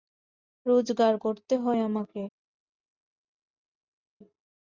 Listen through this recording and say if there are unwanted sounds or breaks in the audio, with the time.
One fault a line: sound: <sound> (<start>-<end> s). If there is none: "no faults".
no faults